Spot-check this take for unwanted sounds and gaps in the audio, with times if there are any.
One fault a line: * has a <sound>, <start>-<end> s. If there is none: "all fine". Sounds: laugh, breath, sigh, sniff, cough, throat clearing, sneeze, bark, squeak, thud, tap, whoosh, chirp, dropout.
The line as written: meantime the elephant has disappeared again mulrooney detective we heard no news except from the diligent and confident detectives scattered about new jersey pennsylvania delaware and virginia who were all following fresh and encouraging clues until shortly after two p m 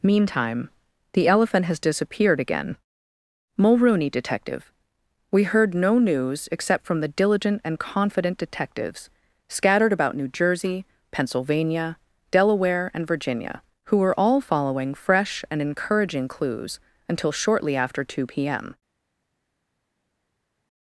all fine